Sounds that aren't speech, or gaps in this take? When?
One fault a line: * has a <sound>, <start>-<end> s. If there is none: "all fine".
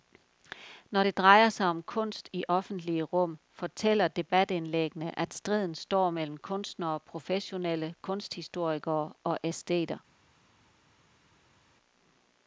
all fine